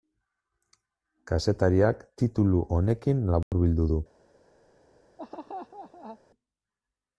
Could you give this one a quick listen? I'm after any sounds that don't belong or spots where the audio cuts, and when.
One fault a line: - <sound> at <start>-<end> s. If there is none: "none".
- dropout at 3.4-3.5 s
- laugh at 5.2-6.2 s